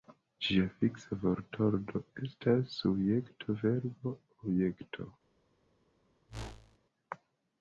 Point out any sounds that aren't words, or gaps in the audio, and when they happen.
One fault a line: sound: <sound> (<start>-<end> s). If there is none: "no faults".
sound: whoosh (6.3-6.8 s)